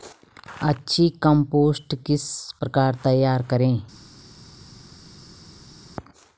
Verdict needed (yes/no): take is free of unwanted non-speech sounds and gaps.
yes